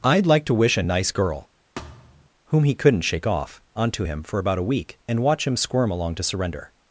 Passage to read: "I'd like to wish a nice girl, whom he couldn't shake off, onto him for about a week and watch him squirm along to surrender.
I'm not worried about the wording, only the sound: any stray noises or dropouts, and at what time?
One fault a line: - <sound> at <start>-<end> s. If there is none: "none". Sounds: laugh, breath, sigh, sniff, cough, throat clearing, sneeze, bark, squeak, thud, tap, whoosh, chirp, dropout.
- thud at 1.8-2.3 s